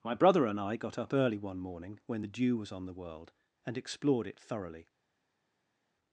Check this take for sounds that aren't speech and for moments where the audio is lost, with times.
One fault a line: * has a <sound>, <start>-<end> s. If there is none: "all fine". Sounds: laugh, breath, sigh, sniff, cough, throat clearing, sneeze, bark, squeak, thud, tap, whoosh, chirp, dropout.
all fine